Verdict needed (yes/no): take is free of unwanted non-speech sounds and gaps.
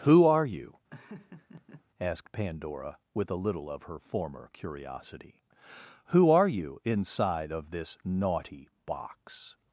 no